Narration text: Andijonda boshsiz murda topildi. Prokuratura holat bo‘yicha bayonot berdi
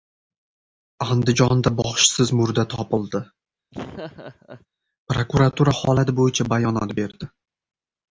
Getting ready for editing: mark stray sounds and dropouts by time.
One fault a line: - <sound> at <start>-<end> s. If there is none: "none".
- laugh at 3.7-4.7 s